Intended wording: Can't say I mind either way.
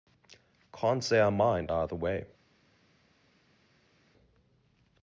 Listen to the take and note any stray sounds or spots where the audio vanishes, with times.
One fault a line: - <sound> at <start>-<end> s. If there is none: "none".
none